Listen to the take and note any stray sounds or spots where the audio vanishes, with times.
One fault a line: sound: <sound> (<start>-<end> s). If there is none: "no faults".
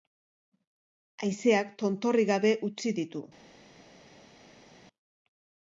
no faults